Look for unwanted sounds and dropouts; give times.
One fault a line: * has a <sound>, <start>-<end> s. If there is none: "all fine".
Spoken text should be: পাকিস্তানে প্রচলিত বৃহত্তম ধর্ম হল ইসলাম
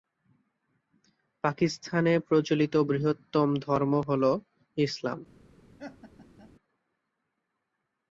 * has a laugh, 5.8-6.5 s